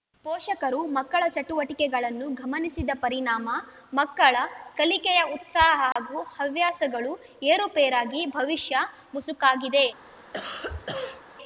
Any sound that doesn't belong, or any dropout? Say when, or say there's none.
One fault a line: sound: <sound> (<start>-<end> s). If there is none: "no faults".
sound: dropout (5.9-6.0 s)
sound: cough (10.3-11.2 s)